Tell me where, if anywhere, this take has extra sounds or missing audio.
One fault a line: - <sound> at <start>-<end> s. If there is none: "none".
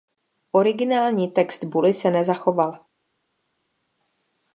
none